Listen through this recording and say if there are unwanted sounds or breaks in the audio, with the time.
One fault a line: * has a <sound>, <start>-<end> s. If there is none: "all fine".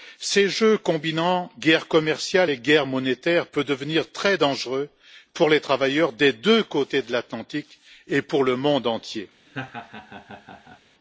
* has a laugh, 9.5-10.8 s